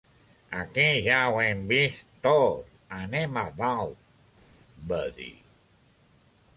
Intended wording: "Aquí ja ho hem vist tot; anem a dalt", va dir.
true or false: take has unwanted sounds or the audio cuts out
false